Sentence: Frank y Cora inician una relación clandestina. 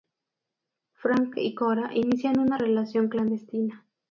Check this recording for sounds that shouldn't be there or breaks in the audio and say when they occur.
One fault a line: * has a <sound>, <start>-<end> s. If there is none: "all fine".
all fine